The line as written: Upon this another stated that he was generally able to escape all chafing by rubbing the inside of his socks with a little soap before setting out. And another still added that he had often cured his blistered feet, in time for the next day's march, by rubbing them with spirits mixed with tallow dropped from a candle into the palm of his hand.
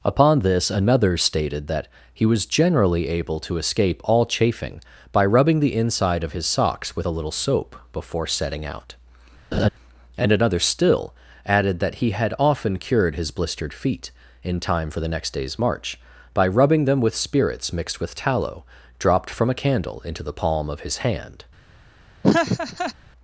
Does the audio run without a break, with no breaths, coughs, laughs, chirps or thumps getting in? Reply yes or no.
no